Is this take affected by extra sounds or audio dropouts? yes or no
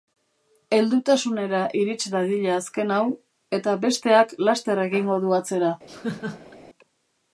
yes